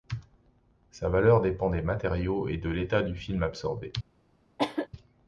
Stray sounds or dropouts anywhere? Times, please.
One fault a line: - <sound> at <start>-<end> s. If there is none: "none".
- cough at 4.6-4.9 s